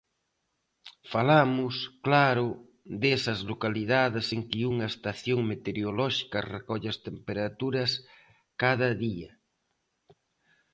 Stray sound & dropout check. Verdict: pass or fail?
pass